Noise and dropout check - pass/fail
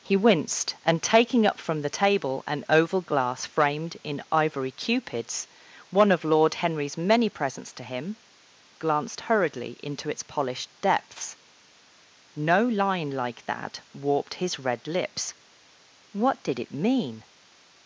pass